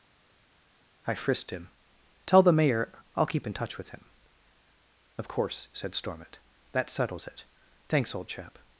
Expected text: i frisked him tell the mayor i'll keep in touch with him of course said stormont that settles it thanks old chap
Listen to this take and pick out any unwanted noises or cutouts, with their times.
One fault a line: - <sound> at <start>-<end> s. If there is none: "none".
none